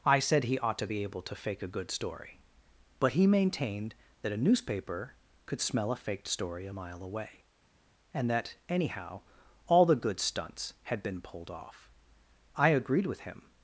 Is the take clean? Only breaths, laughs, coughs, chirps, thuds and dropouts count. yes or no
yes